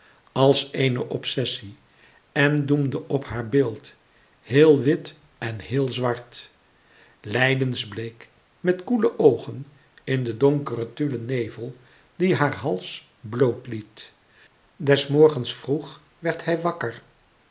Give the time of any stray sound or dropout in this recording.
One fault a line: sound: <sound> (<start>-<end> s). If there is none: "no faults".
no faults